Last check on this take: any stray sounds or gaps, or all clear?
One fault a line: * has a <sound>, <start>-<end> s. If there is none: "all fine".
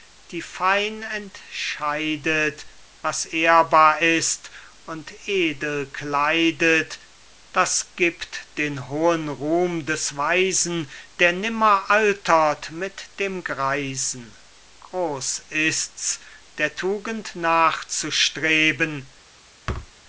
* has a thud, 19.7-19.9 s